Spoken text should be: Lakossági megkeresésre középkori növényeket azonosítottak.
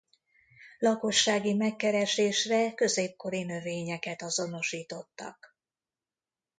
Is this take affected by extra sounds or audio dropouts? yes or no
no